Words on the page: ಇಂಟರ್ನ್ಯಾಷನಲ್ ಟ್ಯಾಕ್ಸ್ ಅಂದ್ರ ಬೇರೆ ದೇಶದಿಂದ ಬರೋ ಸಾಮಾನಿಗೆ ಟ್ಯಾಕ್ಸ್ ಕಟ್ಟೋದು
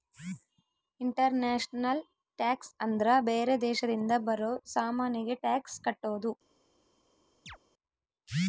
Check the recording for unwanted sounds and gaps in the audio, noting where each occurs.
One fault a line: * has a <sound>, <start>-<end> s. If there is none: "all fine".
* has a chirp, 7.5-7.6 s